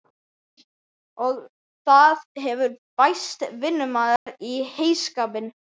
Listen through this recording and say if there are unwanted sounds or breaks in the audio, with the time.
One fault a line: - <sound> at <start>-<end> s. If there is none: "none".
- dropout at 4.2-4.3 s